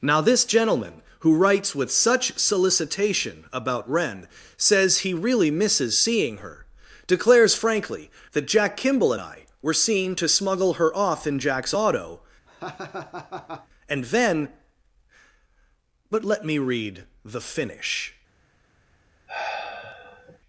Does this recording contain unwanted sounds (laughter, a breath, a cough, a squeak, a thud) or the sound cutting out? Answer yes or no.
yes